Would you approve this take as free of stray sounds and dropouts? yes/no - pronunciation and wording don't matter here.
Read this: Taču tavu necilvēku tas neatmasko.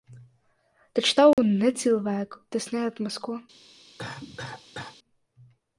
no